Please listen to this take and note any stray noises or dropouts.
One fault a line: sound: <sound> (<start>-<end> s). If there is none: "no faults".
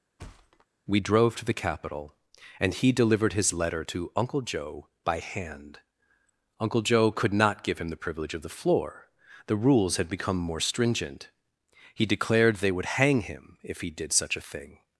sound: thud (0.2-0.7 s)